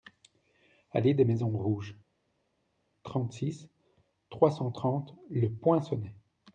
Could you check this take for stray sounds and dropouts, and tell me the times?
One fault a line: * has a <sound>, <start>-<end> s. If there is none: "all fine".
all fine